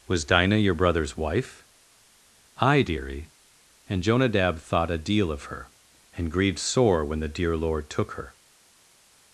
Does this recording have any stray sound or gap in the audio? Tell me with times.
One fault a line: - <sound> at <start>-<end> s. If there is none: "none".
none